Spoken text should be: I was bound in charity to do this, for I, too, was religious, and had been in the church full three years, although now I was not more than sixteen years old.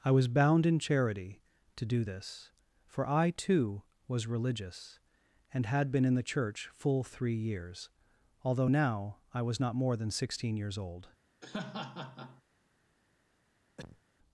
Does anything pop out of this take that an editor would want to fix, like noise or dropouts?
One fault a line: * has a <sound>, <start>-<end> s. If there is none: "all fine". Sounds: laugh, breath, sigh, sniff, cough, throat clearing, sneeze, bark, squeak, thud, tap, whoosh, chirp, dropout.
* has a laugh, 11.4-12.4 s
* has a cough, 13.8-14.0 s